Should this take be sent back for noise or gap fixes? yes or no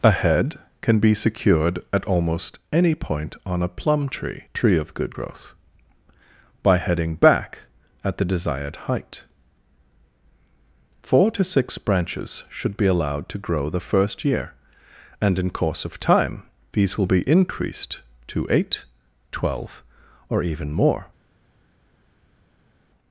no